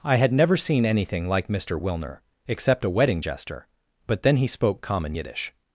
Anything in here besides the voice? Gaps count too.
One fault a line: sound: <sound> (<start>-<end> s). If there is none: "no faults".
no faults